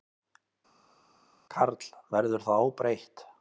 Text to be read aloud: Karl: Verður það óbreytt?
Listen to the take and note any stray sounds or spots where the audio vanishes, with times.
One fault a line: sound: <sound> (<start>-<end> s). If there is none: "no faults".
no faults